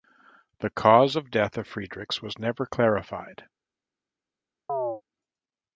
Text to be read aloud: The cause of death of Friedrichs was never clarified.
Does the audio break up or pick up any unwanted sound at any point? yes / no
yes